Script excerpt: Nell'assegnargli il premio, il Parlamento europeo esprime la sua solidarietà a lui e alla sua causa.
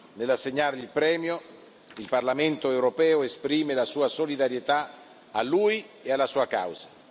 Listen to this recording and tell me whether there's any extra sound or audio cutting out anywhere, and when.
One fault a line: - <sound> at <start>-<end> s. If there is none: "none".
none